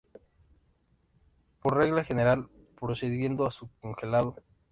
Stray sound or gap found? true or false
false